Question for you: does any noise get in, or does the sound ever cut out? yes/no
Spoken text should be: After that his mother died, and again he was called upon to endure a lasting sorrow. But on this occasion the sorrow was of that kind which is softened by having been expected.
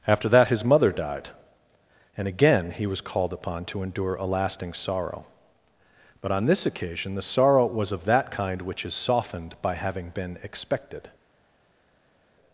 no